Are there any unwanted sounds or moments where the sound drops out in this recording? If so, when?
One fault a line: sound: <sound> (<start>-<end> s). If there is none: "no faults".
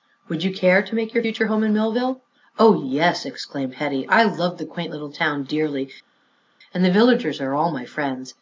no faults